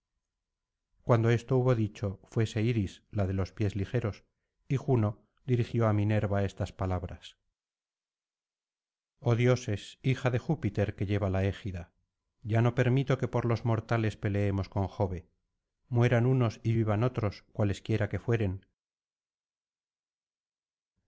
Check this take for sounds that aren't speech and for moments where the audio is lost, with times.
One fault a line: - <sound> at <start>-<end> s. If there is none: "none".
none